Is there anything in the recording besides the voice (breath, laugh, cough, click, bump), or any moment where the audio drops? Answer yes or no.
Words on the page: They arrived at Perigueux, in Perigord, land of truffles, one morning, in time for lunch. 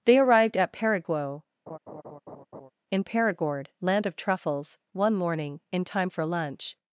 yes